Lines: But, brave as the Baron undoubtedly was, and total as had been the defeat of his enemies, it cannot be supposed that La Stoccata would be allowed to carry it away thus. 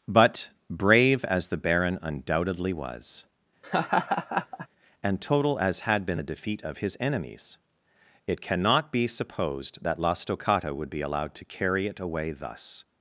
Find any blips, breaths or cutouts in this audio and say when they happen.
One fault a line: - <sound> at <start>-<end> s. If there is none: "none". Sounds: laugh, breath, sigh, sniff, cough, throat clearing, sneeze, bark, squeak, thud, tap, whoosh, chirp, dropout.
- laugh at 3.6-4.7 s